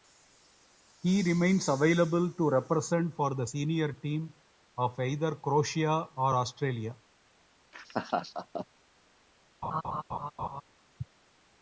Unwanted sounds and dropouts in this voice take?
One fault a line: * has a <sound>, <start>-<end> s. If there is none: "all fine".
* has a laugh, 7.7-8.7 s
* has a laugh, 9.6-10.6 s